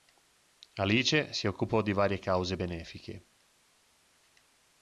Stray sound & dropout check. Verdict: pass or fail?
pass